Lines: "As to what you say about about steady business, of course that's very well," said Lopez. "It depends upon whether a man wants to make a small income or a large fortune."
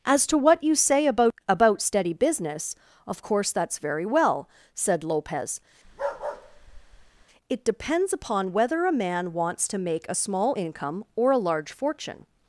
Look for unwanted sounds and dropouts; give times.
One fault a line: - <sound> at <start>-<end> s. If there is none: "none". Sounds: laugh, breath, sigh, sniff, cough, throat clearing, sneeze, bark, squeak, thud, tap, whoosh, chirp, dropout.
- bark at 5.8-7.3 s